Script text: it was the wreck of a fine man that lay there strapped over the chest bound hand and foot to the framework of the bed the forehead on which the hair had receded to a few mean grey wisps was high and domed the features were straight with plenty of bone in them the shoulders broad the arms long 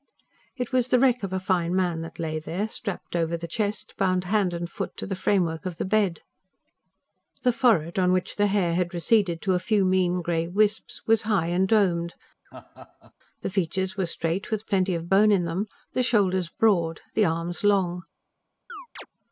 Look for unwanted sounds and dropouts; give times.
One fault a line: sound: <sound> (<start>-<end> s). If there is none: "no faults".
sound: laugh (12.5-13.1 s)
sound: chirp (18.7-19.1 s)